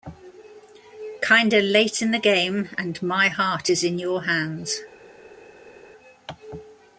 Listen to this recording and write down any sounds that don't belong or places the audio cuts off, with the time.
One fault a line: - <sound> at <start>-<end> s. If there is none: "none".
none